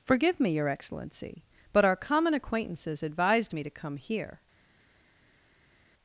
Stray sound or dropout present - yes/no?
no